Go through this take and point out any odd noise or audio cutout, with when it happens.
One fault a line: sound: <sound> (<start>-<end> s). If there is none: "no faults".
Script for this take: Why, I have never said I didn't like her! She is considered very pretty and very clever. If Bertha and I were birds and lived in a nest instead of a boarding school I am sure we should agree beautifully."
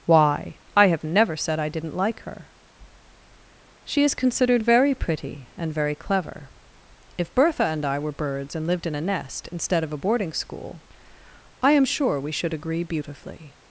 no faults